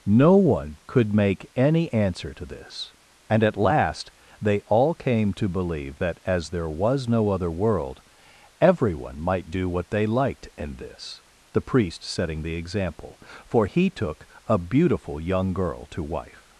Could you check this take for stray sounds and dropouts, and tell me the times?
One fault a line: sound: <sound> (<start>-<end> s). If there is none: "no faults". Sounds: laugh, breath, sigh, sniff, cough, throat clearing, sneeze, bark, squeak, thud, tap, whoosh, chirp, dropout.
no faults